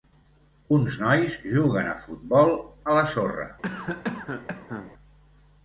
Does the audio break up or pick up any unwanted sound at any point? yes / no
yes